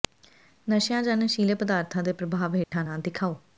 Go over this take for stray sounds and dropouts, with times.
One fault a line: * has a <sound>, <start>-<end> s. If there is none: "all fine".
* has a dropout, 2.6-2.7 s